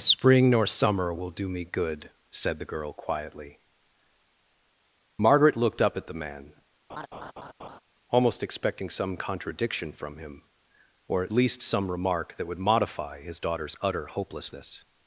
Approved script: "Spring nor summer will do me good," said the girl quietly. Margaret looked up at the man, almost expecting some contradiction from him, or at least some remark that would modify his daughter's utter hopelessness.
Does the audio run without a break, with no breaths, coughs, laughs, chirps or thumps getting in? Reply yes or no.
no